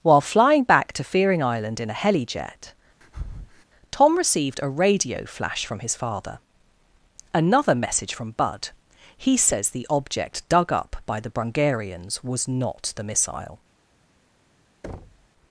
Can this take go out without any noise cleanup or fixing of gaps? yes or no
no